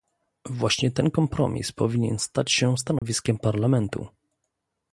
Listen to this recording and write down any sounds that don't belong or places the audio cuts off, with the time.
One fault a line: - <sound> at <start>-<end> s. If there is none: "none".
- dropout at 3.0-3.0 s